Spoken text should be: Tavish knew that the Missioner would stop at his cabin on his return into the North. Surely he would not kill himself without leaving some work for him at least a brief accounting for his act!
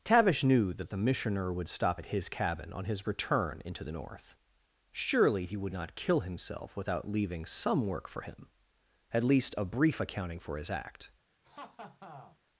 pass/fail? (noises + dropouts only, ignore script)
fail